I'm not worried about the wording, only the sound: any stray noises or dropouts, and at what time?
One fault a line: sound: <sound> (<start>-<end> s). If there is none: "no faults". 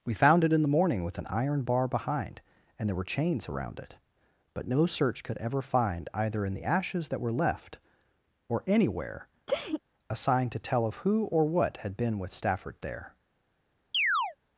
sound: sneeze (9.5-9.8 s)
sound: chirp (13.9-14.4 s)